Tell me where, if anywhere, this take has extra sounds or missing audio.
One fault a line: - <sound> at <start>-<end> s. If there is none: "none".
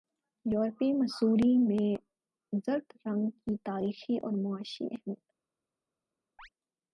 - chirp at 6.4-6.5 s